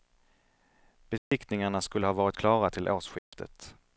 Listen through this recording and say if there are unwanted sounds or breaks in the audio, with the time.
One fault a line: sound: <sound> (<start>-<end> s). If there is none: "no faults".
sound: dropout (1.2-1.3 s)
sound: dropout (3.2-3.3 s)